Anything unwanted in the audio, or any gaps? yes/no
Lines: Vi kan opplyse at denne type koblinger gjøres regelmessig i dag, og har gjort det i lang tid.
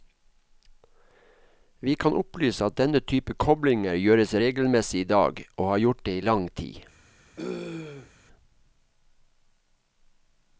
yes